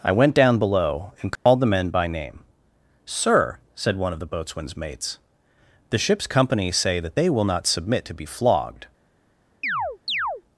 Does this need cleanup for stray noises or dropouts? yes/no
yes